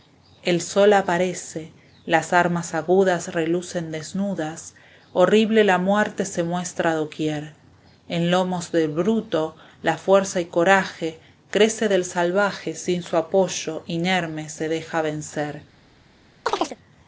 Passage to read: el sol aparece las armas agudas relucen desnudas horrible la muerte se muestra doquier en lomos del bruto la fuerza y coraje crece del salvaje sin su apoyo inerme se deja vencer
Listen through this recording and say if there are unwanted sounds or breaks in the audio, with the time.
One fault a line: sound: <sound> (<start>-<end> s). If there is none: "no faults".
sound: chirp (16.5-16.8 s)